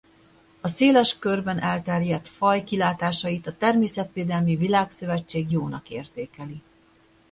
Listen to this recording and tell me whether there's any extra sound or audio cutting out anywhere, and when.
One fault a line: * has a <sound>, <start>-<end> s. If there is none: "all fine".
all fine